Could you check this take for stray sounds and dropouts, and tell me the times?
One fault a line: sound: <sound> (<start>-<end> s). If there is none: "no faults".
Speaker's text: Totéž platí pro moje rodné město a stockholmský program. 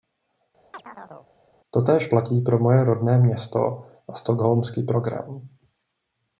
sound: chirp (0.7-1.3 s)